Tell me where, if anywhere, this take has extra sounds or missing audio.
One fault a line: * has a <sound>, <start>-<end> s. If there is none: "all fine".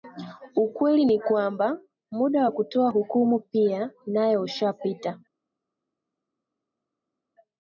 all fine